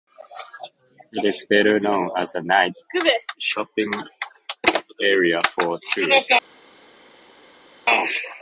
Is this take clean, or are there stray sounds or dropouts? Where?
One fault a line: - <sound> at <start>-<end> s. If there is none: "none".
none